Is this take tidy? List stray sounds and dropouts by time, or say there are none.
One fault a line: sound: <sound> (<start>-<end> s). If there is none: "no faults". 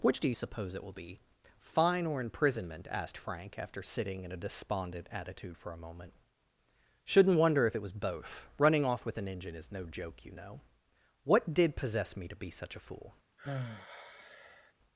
sound: sigh (13.4-14.7 s)